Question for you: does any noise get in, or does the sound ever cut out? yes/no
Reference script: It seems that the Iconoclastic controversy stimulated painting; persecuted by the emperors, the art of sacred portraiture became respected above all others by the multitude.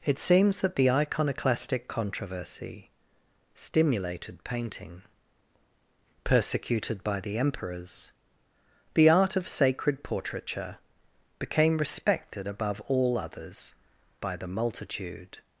no